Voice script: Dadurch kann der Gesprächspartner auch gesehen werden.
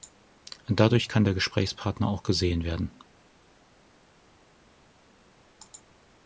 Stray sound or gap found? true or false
false